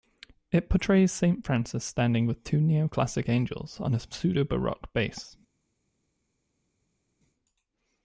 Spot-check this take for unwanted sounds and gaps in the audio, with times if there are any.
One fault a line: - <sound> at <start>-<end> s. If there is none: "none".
none